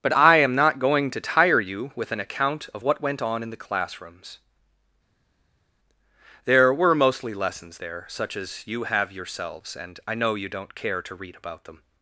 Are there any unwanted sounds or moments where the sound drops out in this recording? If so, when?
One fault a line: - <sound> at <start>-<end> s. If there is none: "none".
none